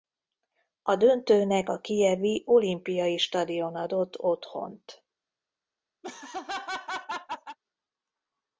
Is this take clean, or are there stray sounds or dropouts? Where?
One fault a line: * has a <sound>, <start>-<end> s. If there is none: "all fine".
* has a laugh, 6.0-7.6 s